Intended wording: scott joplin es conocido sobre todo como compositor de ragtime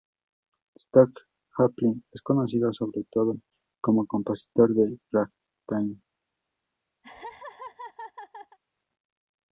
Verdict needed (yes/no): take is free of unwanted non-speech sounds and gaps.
no